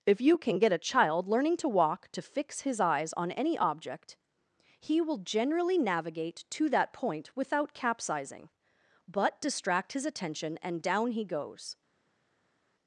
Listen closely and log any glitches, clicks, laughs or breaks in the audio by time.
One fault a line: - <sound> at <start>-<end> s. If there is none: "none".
none